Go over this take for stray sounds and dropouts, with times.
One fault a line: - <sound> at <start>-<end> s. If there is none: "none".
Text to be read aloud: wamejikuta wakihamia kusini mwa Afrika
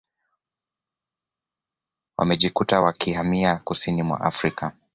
none